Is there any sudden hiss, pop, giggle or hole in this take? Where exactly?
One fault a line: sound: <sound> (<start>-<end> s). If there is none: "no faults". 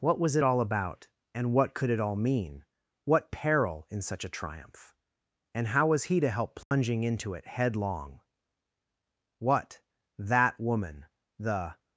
sound: dropout (6.6-6.7 s)